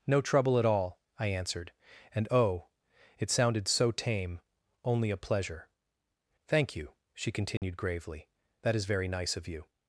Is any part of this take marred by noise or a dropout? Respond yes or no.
yes